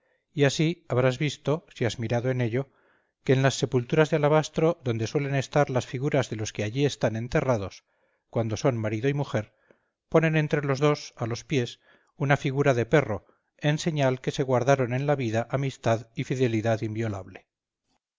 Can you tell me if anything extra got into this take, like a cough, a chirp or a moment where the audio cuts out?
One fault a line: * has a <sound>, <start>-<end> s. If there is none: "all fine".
all fine